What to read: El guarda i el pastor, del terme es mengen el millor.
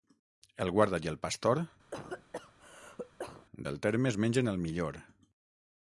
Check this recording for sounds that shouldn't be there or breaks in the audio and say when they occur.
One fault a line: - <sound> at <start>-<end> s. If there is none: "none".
- cough at 1.9-3.5 s